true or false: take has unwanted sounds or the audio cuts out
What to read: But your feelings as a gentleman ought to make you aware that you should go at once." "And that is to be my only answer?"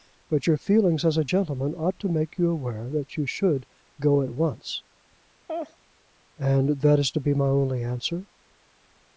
true